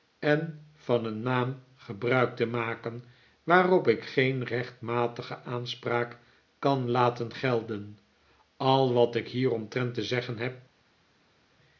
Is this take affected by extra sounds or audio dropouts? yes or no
no